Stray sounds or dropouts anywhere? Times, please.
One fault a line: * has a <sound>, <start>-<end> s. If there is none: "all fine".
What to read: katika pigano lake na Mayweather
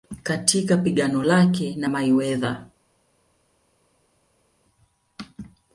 all fine